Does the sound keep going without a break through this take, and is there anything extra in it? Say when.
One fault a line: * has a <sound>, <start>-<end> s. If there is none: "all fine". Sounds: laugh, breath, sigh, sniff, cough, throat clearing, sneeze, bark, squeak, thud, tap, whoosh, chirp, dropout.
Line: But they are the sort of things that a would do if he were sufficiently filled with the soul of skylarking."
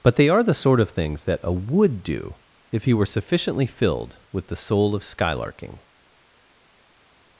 all fine